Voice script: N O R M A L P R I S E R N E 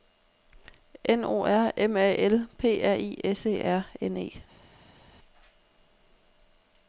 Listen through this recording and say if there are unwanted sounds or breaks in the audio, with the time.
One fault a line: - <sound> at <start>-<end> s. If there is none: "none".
none